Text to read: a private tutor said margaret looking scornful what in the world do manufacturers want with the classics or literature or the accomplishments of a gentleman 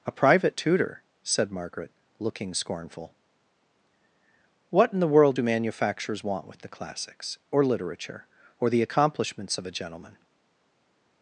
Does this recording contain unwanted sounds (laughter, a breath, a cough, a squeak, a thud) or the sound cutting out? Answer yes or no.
no